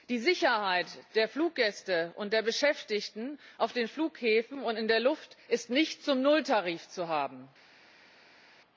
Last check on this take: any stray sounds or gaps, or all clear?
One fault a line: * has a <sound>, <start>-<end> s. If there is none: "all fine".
all fine